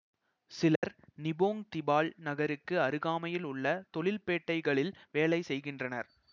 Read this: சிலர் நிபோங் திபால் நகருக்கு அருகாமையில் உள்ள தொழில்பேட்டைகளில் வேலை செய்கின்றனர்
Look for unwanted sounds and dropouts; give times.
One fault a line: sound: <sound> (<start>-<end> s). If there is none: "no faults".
sound: dropout (0.8-0.8 s)